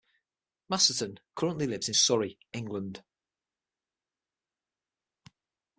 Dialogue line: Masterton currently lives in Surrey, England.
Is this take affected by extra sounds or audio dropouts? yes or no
no